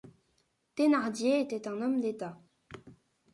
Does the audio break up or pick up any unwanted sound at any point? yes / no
no